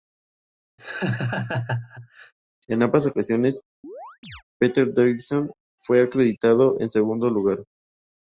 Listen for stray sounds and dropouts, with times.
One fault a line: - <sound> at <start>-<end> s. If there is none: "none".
- laugh at 0.8-2.3 s
- chirp at 3.8-4.4 s